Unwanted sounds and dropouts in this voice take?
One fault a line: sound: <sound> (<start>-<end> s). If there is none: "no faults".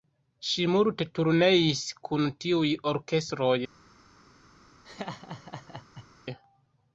sound: laugh (4.8-6.1 s)